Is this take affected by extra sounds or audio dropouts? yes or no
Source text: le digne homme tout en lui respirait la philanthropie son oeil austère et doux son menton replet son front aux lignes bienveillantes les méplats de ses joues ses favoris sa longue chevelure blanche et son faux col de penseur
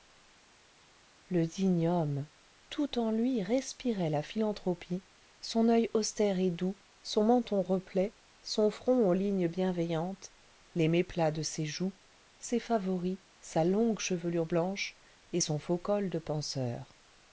no